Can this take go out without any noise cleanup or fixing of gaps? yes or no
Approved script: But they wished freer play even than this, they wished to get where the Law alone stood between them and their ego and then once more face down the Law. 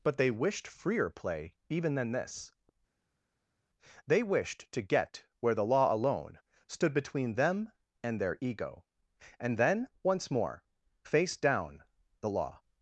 yes